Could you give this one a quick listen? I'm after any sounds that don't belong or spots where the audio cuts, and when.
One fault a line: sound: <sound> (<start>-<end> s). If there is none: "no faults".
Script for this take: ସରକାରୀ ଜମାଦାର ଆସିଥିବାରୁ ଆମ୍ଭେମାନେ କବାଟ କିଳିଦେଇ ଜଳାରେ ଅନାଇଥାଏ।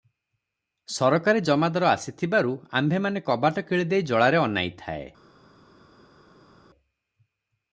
no faults